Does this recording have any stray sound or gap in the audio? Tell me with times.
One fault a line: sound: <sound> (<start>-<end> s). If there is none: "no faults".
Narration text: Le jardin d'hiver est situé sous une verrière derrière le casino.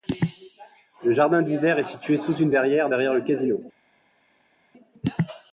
no faults